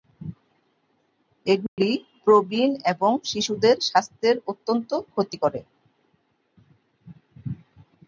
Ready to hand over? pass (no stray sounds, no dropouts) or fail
fail